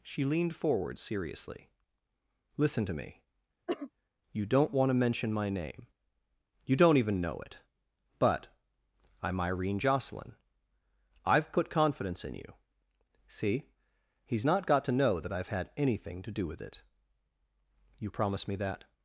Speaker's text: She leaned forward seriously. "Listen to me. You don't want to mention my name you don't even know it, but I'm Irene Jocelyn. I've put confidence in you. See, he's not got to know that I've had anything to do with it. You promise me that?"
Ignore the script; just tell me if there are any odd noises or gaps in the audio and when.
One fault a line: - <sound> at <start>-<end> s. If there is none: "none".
- cough at 3.7-3.9 s